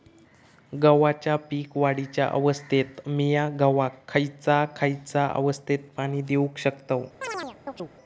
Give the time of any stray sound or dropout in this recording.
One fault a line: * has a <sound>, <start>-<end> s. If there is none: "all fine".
* has a chirp, 7.2-7.9 s